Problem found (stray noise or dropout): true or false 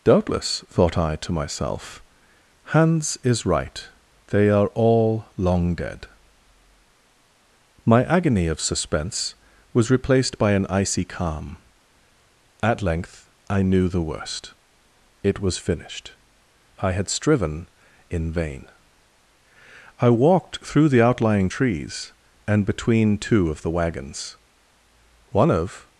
false